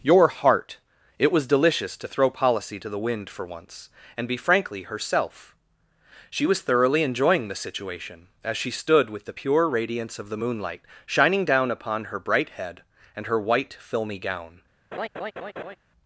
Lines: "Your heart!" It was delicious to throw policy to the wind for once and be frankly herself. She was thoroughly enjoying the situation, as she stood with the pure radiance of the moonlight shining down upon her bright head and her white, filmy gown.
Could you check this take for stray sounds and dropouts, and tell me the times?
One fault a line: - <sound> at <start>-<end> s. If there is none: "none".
- laugh at 14.9-15.8 s